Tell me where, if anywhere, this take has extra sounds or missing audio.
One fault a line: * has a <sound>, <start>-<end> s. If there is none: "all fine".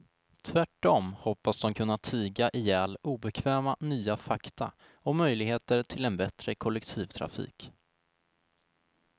all fine